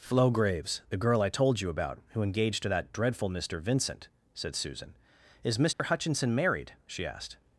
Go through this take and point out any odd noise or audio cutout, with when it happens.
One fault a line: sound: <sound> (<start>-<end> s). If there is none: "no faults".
sound: dropout (5.7-5.8 s)